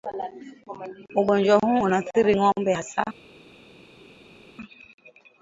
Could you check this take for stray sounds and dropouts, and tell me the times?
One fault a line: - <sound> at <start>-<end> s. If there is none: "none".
none